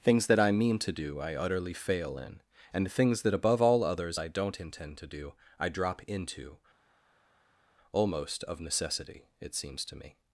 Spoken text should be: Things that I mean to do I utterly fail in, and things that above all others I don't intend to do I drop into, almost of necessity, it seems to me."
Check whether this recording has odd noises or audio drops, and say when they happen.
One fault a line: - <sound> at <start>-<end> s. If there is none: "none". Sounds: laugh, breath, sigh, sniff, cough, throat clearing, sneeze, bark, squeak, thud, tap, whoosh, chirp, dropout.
none